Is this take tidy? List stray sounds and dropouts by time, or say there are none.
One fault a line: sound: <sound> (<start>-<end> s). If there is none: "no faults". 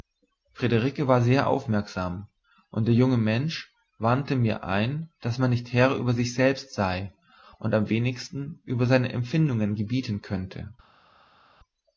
no faults